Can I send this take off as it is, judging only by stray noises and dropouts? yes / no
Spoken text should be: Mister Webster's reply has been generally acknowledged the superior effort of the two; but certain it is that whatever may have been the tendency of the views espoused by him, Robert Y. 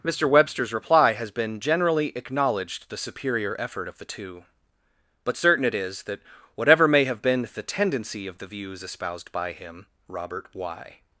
yes